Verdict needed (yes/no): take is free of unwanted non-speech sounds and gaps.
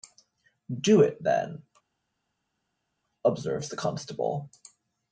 yes